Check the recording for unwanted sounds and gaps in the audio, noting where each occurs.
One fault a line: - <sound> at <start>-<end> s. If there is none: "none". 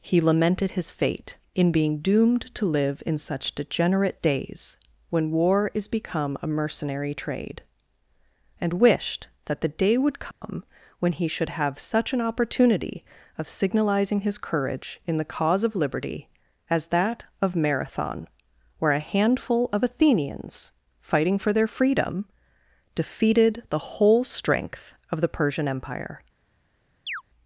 - dropout at 10.3-10.4 s
- chirp at 27.1-27.2 s